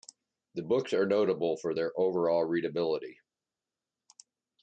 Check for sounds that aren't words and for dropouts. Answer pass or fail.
pass